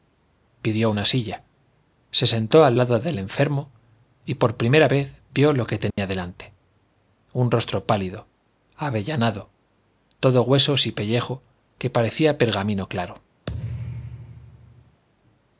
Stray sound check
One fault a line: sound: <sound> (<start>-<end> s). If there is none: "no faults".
sound: dropout (5.9-6.0 s)
sound: thud (13.5-15.0 s)